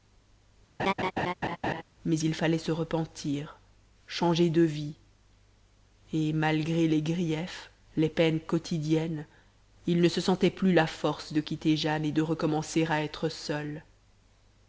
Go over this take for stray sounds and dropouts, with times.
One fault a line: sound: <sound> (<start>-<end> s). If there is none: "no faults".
sound: laugh (0.8-1.8 s)